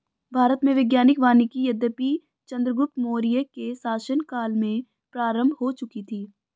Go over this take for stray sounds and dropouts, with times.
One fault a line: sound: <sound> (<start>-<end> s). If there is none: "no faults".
no faults